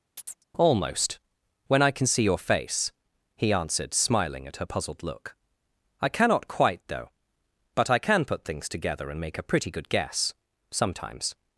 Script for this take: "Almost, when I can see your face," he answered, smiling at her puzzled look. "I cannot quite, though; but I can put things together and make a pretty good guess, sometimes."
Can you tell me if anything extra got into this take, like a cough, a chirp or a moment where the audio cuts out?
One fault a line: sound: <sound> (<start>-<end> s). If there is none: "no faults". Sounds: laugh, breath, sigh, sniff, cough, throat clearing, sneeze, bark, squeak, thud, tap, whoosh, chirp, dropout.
sound: chirp (0.2-0.4 s)